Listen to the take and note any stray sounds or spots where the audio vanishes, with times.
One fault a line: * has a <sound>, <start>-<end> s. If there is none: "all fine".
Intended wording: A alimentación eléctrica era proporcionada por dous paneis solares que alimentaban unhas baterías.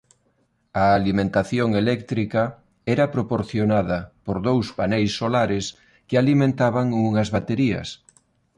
all fine